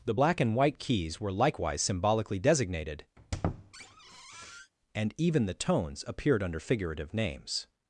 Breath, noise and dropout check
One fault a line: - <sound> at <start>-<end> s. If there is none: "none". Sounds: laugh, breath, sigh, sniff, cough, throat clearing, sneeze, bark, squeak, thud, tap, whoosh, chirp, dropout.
- squeak at 3.2-4.7 s